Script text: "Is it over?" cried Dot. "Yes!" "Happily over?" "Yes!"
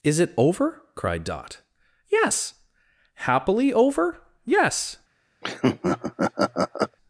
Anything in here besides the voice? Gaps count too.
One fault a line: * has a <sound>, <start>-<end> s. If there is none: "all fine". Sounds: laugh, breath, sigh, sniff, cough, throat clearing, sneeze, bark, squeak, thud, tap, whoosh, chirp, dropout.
* has a laugh, 5.4-7.0 s